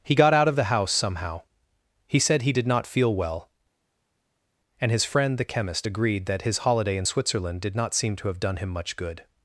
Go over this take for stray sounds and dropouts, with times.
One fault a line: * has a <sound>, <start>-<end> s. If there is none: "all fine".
all fine